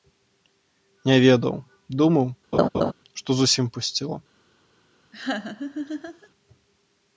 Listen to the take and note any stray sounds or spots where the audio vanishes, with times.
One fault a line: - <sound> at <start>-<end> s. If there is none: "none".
- laugh at 2.5-2.9 s
- laugh at 5.1-6.3 s